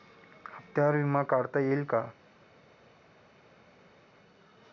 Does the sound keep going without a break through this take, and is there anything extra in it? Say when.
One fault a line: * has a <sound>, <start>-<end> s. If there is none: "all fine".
all fine